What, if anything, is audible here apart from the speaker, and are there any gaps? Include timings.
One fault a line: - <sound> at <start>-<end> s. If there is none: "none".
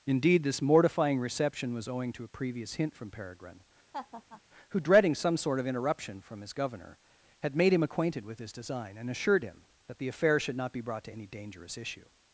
- laugh at 3.9-4.4 s